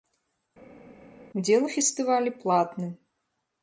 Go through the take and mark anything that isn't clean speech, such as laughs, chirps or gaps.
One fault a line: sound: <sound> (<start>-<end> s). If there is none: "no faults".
no faults